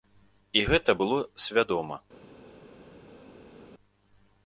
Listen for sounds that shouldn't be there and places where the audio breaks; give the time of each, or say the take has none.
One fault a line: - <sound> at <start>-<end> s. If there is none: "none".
none